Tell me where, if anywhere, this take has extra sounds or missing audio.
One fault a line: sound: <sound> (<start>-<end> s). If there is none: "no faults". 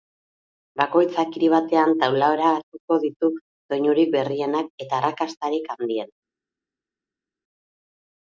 no faults